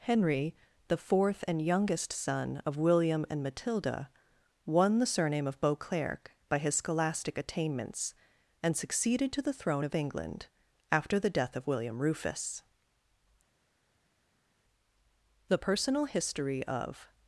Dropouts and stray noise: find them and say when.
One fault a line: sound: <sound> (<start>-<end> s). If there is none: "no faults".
no faults